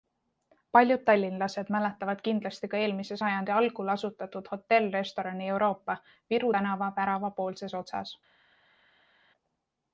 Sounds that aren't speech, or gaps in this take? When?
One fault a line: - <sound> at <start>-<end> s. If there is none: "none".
none